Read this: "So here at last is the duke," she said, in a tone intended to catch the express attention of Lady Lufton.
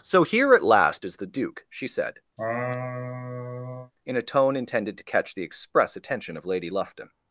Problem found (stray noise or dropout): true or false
true